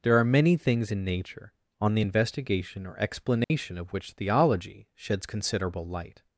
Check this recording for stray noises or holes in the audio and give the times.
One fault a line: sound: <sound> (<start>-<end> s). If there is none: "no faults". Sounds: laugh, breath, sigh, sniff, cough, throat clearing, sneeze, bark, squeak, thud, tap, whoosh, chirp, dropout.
sound: dropout (3.4-3.5 s)